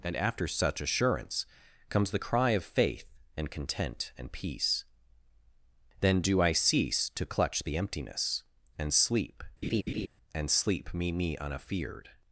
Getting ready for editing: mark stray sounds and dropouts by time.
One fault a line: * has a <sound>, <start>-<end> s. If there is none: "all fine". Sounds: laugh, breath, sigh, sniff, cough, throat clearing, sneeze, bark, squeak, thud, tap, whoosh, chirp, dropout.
* has a laugh, 9.6-10.1 s